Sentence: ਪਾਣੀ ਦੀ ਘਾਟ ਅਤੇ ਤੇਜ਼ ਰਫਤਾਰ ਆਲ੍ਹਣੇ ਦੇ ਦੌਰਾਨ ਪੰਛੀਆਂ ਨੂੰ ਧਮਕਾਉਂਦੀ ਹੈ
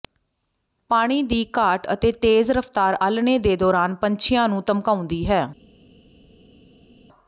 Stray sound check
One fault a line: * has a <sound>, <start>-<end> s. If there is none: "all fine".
all fine